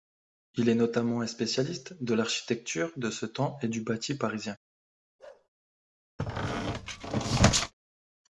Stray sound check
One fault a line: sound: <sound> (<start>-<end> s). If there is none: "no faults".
sound: bark (5.2-5.5 s)
sound: squeak (6.2-7.7 s)